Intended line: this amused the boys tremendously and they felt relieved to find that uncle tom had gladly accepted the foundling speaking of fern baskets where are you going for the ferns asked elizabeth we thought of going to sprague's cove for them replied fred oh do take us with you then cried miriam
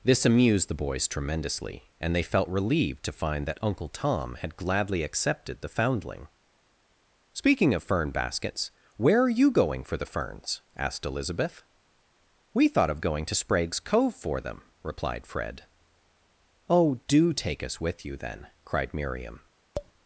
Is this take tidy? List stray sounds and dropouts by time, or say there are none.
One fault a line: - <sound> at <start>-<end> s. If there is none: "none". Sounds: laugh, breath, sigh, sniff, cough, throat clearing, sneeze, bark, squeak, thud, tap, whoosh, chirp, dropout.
- tap at 19.7-19.9 s